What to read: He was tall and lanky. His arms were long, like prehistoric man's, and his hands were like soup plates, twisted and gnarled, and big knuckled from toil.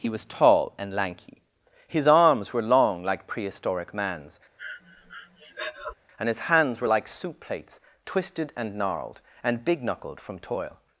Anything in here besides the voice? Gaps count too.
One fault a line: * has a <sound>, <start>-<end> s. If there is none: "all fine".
* has a breath, 4.6-5.9 s